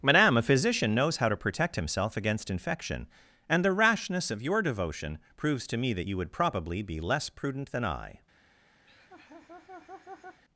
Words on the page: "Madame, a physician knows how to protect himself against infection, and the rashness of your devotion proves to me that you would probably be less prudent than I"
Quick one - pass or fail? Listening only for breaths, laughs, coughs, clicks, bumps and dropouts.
fail